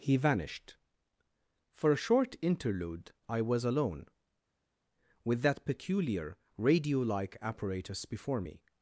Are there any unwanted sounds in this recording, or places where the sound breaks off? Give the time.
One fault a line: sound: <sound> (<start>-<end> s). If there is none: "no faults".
no faults